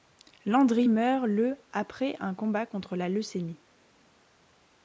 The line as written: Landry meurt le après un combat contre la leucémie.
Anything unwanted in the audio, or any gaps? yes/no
no